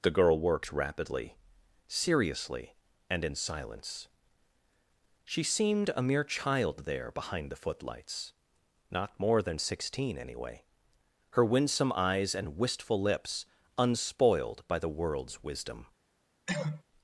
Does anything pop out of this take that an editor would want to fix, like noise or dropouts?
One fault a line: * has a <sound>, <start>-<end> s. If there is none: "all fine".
* has a cough, 16.5-16.8 s